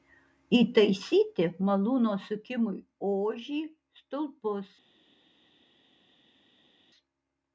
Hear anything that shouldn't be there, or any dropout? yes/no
no